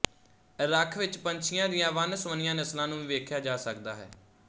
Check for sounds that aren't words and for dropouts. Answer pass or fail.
pass